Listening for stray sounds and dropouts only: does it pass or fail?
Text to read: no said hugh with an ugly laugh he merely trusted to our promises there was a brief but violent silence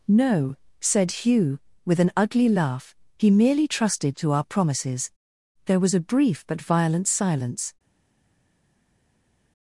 pass